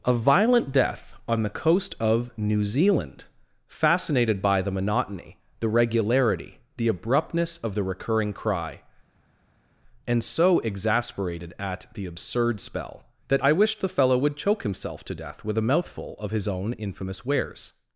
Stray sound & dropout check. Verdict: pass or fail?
pass